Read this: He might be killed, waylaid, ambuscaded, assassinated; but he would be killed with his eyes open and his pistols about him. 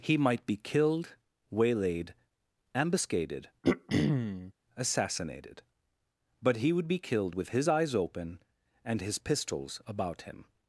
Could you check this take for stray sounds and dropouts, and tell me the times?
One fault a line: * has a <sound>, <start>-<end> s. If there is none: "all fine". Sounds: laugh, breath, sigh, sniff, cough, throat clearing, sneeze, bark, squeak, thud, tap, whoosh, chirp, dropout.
* has a throat clearing, 3.6-4.5 s